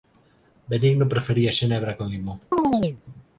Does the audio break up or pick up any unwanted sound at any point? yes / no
yes